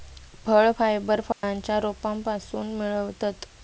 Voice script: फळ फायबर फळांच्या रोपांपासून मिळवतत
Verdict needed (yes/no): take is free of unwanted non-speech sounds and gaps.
no